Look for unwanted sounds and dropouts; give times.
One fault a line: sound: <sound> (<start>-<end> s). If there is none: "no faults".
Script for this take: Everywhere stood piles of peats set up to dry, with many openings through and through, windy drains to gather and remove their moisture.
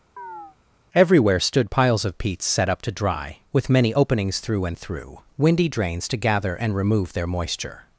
sound: chirp (0.2-0.6 s)